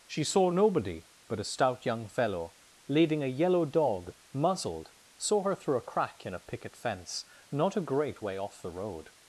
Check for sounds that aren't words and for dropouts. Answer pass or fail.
pass